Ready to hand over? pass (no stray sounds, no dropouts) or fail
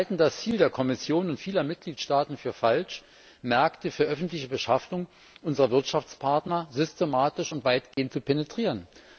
fail